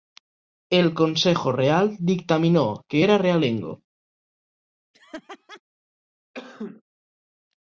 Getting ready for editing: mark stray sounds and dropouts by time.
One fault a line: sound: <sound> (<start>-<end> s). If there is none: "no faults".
sound: laugh (4.9-5.6 s)
sound: sneeze (6.3-6.8 s)